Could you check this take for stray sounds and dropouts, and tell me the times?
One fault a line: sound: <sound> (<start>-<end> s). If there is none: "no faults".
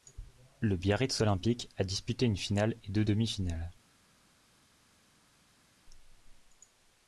no faults